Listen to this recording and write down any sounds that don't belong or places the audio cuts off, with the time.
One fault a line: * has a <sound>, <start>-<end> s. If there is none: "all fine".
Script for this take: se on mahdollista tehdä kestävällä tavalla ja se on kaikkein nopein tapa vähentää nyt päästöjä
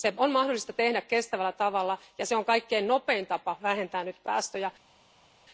all fine